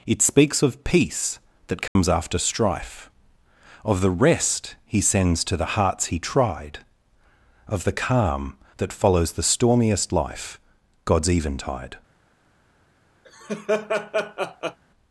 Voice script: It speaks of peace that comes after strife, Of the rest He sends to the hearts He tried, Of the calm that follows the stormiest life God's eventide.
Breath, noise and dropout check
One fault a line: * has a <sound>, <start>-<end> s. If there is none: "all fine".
* has a dropout, 1.9-2.0 s
* has a laugh, 13.2-14.8 s